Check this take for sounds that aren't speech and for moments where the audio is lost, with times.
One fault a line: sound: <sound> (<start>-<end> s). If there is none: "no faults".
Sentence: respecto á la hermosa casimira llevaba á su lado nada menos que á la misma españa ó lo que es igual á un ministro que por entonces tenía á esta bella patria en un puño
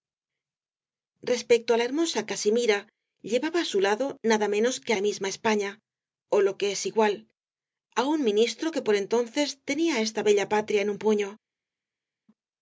no faults